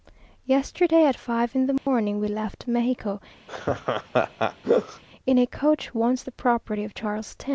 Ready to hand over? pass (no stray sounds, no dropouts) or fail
fail